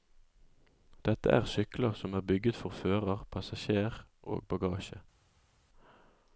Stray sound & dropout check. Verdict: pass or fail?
pass